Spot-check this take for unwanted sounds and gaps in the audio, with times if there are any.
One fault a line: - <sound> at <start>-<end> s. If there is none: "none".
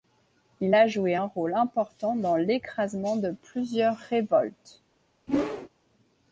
- whoosh at 5.3-5.7 s